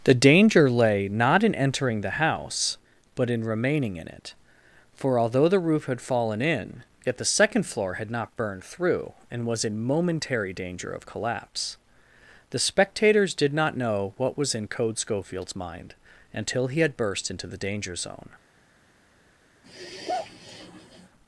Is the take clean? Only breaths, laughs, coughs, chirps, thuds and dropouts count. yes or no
no